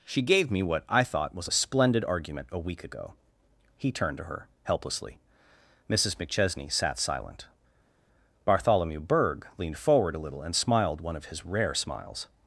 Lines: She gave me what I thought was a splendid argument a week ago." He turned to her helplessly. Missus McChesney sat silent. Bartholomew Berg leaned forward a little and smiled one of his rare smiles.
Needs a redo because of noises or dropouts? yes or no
no